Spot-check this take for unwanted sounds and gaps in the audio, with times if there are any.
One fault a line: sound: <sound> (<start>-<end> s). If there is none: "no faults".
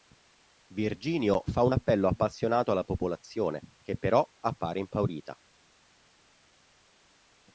no faults